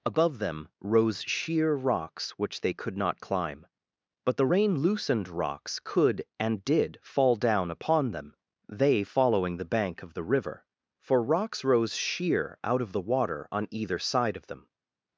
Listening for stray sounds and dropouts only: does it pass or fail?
pass